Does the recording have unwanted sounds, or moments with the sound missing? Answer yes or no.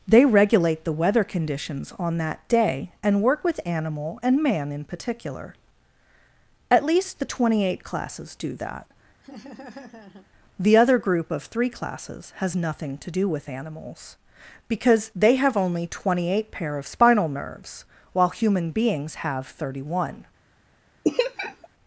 yes